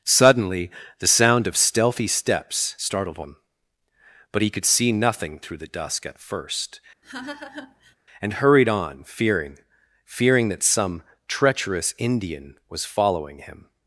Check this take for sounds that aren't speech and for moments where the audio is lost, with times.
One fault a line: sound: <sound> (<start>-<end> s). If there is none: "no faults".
sound: laugh (7.0-8.0 s)